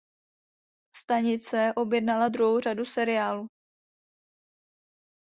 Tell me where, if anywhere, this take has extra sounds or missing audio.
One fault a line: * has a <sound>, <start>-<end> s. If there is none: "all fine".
all fine